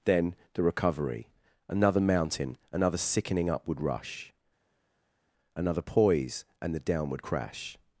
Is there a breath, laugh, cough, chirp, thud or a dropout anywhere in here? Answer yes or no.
no